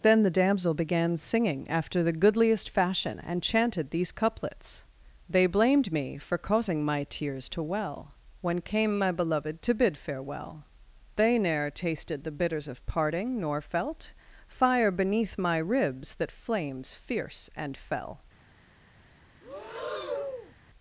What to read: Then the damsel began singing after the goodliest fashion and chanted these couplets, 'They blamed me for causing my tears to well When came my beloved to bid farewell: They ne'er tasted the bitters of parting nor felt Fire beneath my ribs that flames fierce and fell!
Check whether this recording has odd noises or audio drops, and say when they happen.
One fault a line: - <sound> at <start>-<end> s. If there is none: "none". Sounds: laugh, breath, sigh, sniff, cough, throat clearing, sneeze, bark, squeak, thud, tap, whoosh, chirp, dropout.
- breath at 19.4-20.5 s